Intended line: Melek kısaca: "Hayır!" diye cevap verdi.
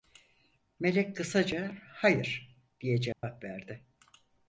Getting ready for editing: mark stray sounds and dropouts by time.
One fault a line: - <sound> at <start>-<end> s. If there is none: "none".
- dropout at 3.1-3.2 s